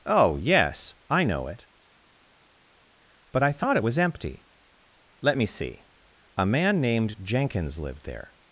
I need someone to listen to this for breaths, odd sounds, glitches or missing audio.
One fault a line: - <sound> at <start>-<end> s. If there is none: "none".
none